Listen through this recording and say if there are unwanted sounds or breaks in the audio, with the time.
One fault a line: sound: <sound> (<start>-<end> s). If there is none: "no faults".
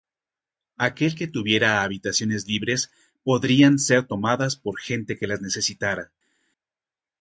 no faults